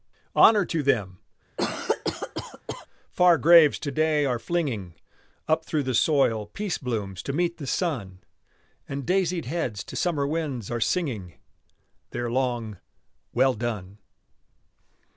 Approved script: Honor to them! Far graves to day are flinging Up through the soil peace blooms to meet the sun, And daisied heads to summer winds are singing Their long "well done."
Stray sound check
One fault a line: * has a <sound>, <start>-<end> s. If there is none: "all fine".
* has a cough, 1.6-2.9 s